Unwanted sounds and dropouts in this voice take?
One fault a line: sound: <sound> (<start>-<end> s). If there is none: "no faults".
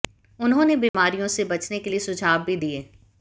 sound: dropout (0.9-0.9 s)